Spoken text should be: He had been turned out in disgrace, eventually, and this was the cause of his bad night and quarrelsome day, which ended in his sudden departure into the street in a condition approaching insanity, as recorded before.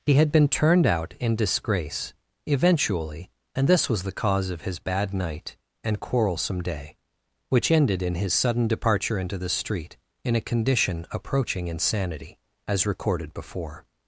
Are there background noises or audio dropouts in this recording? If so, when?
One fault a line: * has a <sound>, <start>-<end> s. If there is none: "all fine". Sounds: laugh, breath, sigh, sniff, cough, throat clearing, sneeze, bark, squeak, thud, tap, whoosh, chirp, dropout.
all fine